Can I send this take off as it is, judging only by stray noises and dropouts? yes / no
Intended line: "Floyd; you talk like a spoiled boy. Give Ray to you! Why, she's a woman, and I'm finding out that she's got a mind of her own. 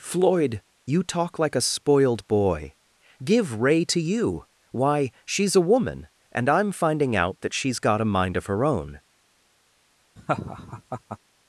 no